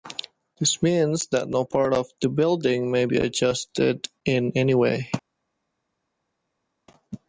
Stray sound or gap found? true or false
false